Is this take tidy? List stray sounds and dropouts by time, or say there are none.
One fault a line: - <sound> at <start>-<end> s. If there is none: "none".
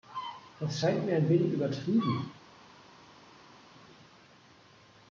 none